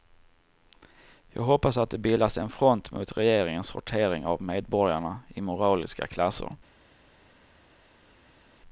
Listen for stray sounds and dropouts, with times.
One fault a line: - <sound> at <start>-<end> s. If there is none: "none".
none